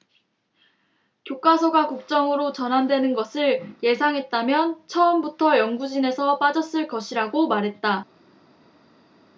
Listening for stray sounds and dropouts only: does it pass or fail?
pass